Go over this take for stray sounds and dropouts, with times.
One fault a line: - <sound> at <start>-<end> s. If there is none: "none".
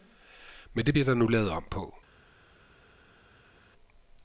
none